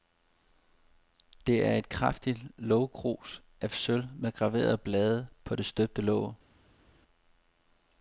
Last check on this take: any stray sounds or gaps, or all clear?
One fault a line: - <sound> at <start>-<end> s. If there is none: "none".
none